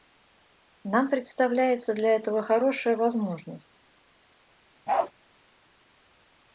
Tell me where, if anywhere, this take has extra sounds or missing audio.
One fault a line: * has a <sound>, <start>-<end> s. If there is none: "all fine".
* has a bark, 4.9-5.1 s